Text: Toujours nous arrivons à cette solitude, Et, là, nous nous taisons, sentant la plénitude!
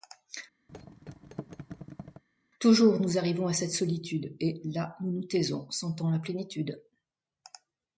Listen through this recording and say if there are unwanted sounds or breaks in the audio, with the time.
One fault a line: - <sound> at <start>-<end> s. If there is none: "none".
- thud at 0.7-2.2 s